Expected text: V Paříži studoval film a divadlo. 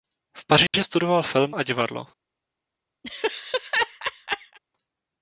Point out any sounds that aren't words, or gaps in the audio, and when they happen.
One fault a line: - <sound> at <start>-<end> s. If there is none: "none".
- dropout at 0.7-0.7 s
- laugh at 3.0-4.6 s